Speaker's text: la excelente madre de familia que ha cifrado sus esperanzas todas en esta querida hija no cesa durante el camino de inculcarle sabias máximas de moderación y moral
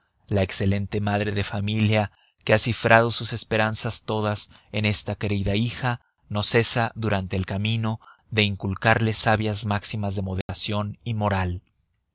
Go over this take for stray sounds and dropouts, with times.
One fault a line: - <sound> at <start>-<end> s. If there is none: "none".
- dropout at 10.4-10.5 s